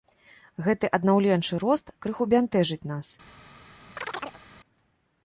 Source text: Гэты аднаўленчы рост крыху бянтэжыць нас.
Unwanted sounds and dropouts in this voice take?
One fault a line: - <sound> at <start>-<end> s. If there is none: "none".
- chirp at 4.0-4.4 s